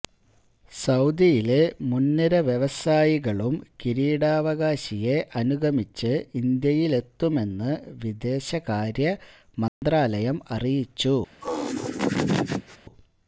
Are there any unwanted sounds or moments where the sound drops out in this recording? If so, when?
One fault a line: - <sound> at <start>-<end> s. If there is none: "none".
- dropout at 9.7-9.8 s
- laugh at 11.4-12.8 s